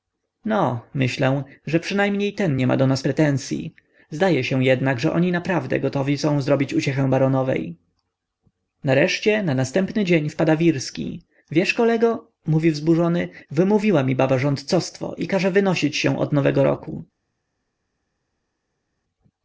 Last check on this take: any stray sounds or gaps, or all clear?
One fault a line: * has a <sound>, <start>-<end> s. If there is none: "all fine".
all fine